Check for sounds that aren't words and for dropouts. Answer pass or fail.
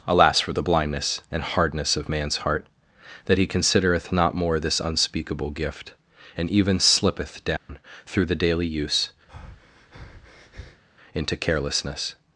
fail